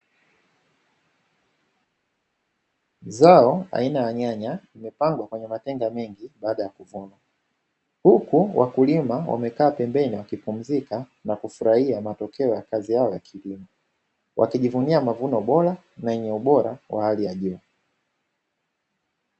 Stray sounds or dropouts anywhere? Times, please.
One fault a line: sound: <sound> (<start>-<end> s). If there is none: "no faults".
no faults